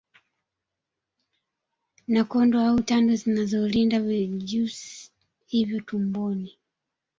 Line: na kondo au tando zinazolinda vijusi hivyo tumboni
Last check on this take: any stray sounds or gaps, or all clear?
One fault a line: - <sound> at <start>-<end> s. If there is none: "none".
none